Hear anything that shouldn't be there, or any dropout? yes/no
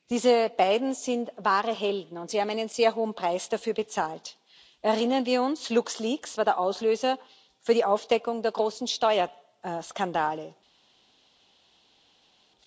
no